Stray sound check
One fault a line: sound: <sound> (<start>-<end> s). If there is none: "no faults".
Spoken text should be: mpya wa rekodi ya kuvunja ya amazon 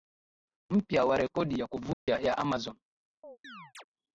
sound: dropout (1.9-2.1 s)
sound: chirp (3.2-3.8 s)